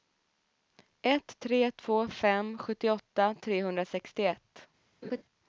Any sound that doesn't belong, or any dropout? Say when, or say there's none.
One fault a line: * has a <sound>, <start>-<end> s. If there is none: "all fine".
* has a laugh, 5.0-5.2 s